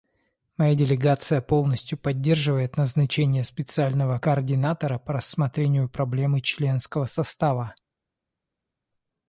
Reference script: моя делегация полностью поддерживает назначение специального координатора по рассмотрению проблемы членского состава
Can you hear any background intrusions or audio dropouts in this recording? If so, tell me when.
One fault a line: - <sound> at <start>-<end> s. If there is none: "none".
none